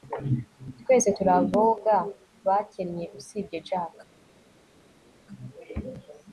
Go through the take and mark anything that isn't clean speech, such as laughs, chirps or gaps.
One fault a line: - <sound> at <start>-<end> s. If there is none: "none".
none